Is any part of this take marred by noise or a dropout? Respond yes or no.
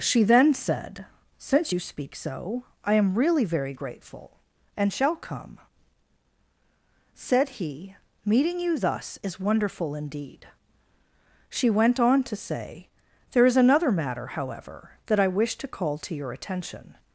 no